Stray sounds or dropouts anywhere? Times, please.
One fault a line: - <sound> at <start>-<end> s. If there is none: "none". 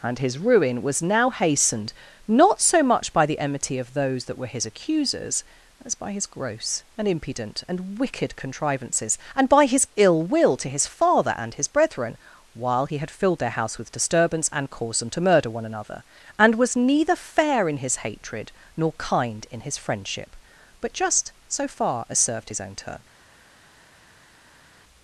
none